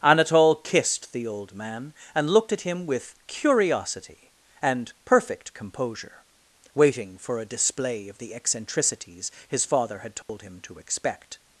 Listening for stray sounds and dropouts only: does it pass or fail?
fail